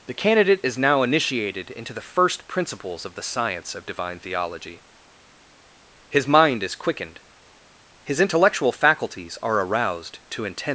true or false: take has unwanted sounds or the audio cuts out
false